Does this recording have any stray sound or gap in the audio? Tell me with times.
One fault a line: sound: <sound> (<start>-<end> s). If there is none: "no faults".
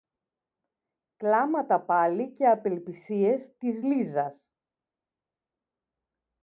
no faults